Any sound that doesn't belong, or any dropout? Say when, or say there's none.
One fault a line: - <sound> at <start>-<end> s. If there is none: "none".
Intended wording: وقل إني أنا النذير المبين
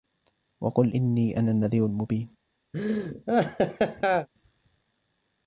- laugh at 2.7-4.3 s